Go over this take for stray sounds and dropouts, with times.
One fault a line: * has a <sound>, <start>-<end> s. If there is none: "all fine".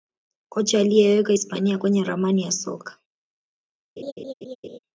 * has a laugh, 4.0-4.8 s